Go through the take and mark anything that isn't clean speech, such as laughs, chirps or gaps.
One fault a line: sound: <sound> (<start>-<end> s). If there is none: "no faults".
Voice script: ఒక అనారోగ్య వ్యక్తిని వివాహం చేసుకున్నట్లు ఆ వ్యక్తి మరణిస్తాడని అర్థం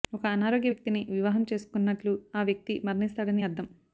no faults